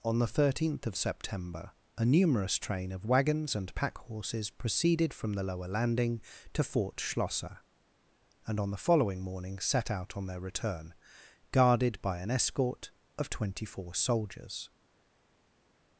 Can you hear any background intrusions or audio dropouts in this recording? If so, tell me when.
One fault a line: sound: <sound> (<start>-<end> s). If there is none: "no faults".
no faults